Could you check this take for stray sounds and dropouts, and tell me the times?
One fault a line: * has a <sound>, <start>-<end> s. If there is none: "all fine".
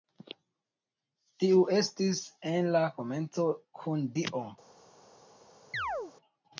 * has a chirp, 5.7-6.1 s